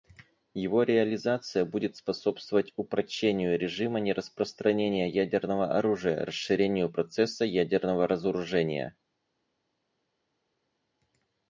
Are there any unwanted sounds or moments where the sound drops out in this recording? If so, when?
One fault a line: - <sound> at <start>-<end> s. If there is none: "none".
none